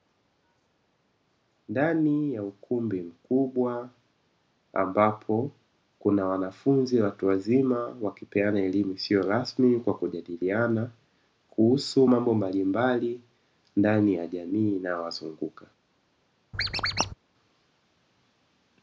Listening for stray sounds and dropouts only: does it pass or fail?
fail